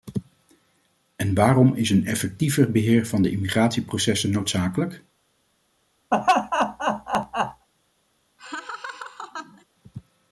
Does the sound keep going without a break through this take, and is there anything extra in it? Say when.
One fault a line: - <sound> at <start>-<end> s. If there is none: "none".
- laugh at 6.1-7.7 s
- laugh at 8.4-9.6 s